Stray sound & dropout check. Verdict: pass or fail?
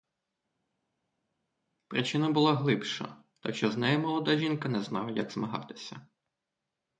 pass